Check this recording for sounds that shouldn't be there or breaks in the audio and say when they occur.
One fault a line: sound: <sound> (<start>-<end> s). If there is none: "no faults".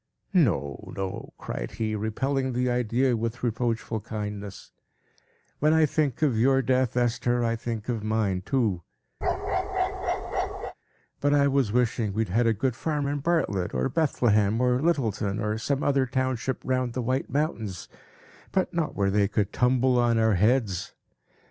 sound: bark (9.2-10.7 s)